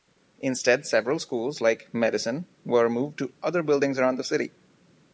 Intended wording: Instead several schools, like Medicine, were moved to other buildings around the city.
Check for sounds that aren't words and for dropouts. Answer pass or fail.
pass